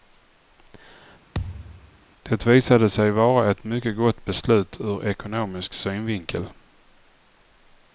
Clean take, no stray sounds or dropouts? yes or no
no